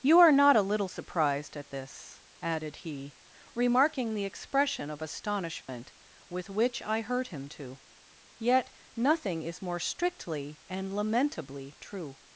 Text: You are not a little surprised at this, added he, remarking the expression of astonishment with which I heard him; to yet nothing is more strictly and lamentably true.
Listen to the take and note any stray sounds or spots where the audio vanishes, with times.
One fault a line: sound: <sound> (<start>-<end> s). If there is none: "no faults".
sound: dropout (5.6-5.7 s)